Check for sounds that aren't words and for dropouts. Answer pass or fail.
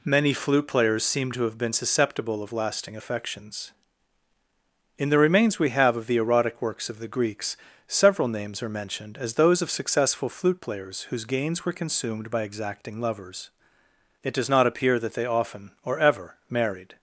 pass